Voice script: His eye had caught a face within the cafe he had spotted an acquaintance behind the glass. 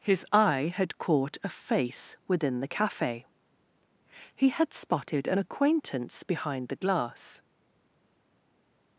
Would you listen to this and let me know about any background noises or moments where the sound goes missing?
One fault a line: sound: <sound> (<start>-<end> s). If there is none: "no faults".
no faults